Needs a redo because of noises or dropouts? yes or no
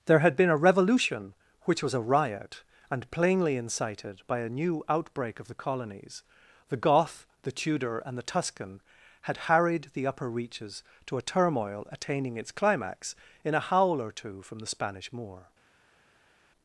no